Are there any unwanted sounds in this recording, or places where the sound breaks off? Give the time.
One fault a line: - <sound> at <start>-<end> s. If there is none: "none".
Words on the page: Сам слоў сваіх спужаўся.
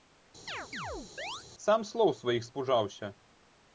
- chirp at 0.5-1.4 s